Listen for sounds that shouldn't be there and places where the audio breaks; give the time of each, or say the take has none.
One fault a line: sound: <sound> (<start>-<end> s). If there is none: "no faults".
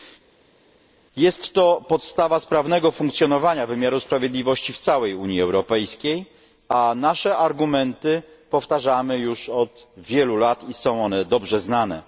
no faults